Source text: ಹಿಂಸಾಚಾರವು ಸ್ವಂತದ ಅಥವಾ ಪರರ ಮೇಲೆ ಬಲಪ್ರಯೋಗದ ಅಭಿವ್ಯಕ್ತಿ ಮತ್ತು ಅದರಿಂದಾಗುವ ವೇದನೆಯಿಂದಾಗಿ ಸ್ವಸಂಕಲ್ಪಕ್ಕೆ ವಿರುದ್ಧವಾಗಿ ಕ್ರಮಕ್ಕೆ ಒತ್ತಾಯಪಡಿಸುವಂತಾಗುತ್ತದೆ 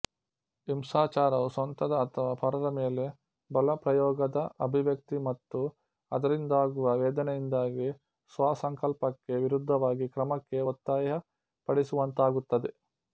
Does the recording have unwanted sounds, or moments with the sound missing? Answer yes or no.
no